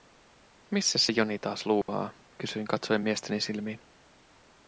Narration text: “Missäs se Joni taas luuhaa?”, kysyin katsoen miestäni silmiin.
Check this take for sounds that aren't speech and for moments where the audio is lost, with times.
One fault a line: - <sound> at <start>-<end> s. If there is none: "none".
- dropout at 1.8-1.9 s